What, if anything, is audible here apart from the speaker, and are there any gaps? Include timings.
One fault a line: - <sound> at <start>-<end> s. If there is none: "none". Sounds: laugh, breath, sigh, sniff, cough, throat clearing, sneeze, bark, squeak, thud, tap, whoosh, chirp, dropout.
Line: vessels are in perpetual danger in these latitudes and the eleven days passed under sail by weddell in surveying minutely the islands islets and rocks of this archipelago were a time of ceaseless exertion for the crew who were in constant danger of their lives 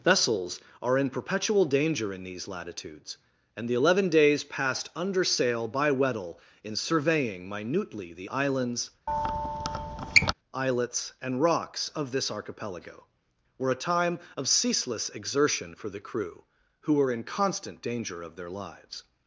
- squeak at 9.1-10.3 s